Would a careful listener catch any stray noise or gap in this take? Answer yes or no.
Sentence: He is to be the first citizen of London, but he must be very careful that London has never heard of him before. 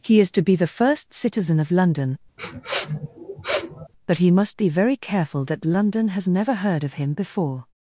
yes